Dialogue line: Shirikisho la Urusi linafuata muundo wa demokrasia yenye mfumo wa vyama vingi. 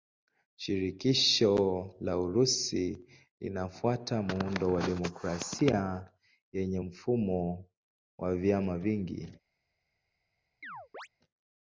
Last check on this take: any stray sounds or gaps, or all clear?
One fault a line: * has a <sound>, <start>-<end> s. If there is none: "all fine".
* has a chirp, 10.6-11.1 s